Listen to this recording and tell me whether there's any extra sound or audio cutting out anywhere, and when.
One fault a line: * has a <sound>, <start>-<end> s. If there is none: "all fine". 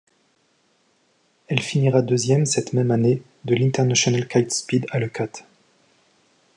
all fine